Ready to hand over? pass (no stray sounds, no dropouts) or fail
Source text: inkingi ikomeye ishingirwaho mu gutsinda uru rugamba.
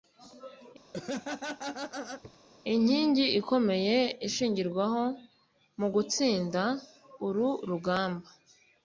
fail